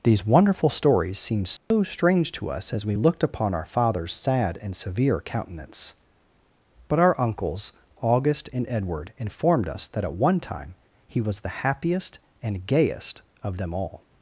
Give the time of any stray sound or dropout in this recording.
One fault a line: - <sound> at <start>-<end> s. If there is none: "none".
- dropout at 1.6-1.7 s